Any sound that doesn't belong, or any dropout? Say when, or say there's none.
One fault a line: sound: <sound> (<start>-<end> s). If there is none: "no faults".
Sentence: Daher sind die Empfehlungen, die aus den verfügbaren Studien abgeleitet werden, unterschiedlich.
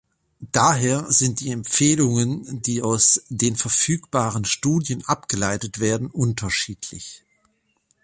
no faults